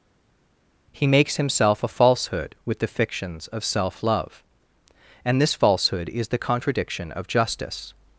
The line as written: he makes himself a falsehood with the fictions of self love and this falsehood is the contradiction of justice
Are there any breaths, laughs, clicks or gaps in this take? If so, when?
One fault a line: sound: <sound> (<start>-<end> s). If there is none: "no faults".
no faults